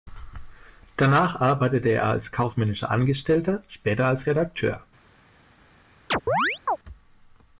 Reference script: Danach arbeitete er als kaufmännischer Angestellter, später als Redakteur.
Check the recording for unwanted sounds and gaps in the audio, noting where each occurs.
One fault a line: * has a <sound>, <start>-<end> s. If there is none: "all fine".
* has a chirp, 6.1-6.8 s